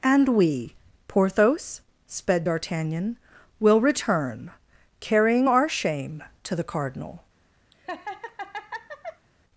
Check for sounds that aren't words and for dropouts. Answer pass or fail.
fail